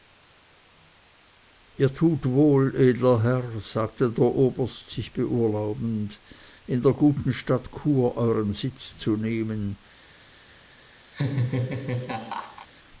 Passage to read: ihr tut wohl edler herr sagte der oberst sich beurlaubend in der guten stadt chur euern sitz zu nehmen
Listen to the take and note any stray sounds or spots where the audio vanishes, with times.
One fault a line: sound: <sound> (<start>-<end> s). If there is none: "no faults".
sound: laugh (11.1-12.7 s)